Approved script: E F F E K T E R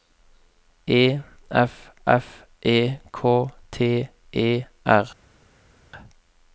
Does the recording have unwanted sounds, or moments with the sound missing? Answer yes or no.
no